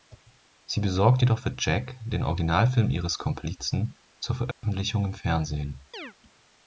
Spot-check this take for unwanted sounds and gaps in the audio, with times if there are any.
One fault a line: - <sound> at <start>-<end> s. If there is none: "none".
- dropout at 4.5-4.6 s
- chirp at 5.9-6.1 s